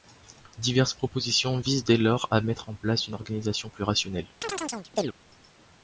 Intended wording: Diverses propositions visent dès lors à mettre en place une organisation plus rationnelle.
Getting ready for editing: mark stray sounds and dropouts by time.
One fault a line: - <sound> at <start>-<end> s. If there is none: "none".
- chirp at 4.4-5.1 s